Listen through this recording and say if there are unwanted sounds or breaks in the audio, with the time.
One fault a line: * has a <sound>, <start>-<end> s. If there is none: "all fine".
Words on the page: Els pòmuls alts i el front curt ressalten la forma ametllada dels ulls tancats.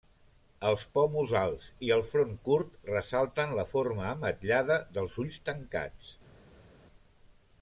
all fine